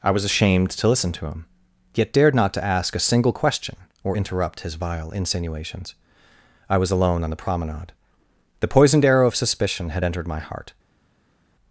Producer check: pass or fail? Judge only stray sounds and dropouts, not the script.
pass